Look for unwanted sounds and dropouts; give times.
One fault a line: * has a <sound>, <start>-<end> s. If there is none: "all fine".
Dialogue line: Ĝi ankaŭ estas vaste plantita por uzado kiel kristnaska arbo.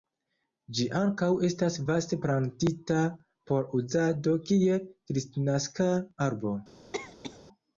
* has a cough, 6.9-7.4 s